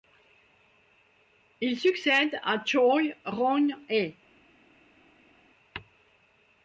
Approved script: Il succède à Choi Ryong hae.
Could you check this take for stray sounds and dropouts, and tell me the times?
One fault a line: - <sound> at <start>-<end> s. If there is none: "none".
none